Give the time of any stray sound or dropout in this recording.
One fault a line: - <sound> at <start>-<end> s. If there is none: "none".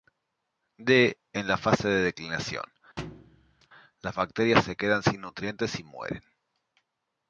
- thud at 3.0-3.7 s